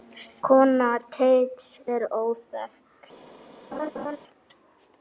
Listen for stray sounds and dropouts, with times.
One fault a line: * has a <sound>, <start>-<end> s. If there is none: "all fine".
* has a laugh, 3.7-4.2 s